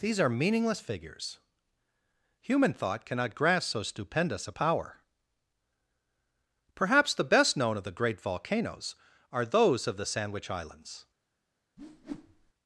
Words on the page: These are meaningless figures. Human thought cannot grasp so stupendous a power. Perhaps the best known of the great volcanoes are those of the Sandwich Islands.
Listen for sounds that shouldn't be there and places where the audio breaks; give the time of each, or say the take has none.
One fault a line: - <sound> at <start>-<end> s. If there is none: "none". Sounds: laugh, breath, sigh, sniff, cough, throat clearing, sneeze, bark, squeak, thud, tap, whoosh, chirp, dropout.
- whoosh at 11.8-12.5 s